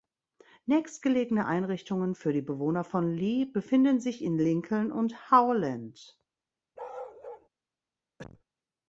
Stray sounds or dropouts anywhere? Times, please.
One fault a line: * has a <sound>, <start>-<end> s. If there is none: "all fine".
* has a bark, 6.8-7.5 s
* has a cough, 8.2-8.4 s